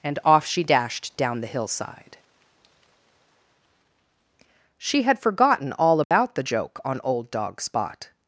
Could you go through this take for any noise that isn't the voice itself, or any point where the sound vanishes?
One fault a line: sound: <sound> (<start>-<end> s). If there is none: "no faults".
sound: dropout (6.0-6.1 s)